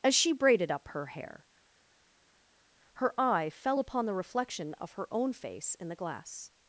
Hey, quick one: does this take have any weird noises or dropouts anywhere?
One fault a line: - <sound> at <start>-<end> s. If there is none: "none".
none